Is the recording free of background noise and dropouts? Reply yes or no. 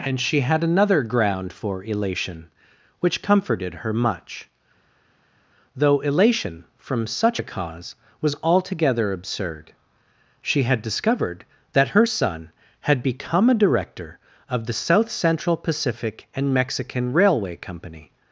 yes